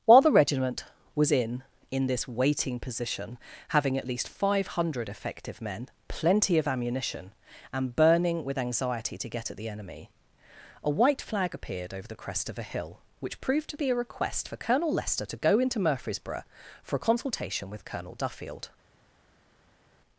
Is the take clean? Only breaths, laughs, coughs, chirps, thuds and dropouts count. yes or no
yes